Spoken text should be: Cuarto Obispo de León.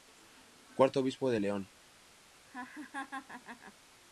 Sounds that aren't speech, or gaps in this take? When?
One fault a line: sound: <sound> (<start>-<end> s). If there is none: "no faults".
sound: laugh (2.5-3.7 s)